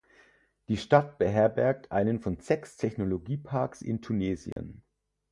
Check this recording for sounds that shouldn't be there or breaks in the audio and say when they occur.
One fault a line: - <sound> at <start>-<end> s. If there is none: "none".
- dropout at 4.5-4.6 s